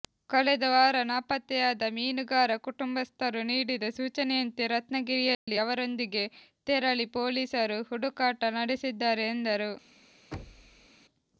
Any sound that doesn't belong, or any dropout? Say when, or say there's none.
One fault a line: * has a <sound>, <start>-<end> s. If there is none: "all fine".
* has a dropout, 5.3-5.5 s
* has a thud, 10.3-10.9 s